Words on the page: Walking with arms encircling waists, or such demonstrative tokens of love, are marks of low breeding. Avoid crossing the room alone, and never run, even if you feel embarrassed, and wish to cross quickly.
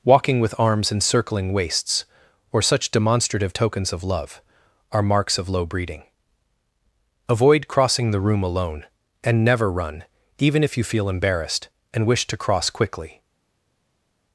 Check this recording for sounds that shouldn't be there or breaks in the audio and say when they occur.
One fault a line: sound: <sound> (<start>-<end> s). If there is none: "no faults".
no faults